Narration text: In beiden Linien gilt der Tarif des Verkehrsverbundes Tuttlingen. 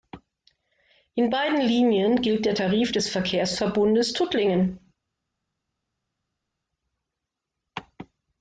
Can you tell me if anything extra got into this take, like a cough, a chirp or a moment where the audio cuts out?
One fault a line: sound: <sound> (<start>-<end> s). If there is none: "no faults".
no faults